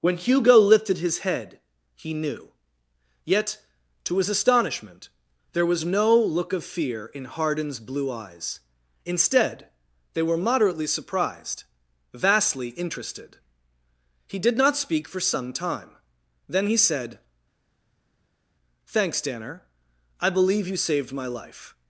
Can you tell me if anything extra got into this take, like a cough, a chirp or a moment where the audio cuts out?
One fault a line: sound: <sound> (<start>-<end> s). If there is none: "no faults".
no faults